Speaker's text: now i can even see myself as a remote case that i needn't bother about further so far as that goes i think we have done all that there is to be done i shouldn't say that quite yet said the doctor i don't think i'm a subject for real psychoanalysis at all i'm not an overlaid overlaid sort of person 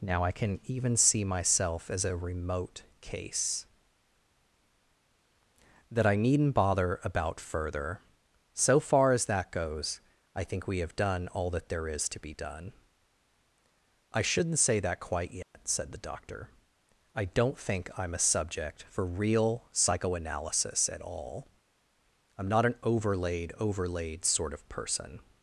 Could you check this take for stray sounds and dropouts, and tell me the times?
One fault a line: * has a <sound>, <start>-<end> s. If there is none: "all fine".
* has a dropout, 15.4-15.5 s